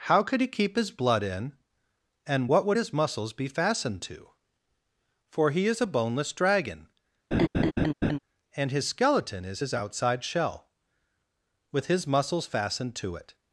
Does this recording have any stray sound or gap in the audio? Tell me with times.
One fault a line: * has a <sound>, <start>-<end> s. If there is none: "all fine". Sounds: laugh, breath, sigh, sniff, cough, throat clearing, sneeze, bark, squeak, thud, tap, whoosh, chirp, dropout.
* has a laugh, 7.3-8.2 s